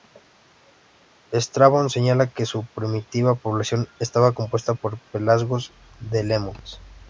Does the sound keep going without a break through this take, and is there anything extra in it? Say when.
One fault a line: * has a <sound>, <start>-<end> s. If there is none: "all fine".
all fine